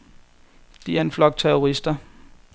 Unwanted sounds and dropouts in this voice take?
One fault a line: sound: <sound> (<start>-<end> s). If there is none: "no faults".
no faults